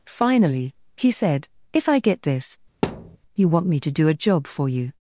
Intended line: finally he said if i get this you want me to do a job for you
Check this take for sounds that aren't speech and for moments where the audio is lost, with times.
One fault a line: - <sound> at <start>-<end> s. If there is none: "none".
- thud at 2.8-3.2 s